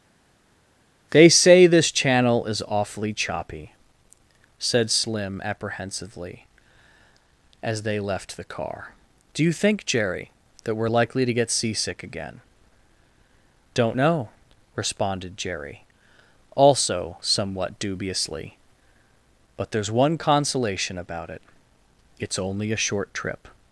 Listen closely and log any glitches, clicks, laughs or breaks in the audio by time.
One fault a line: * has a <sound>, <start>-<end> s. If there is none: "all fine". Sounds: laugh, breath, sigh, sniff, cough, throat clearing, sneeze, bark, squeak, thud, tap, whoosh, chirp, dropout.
all fine